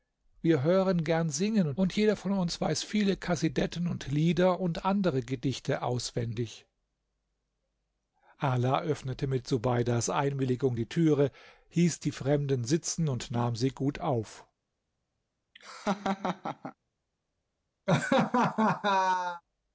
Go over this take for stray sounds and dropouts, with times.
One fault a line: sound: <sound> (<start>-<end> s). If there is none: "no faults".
sound: laugh (15.5-16.7 s)
sound: laugh (17.9-19.4 s)